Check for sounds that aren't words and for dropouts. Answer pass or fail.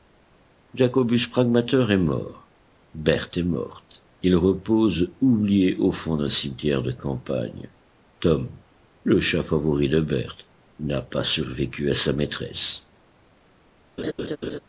fail